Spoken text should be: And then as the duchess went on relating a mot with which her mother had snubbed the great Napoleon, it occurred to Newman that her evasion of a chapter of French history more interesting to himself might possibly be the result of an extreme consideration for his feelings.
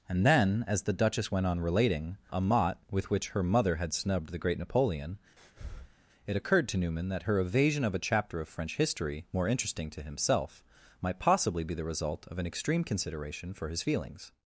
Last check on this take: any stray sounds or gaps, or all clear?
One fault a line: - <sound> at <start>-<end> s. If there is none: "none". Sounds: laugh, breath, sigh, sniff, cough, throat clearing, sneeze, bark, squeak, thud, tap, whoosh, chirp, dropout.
- breath at 5.4-6.0 s